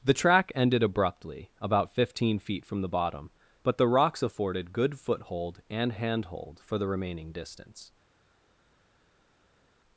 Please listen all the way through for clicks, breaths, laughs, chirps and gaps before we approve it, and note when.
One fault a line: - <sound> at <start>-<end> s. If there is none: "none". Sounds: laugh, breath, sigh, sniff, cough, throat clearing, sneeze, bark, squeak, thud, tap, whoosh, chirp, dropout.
none